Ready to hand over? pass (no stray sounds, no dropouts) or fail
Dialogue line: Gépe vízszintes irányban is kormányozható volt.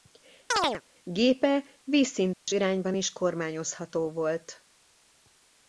fail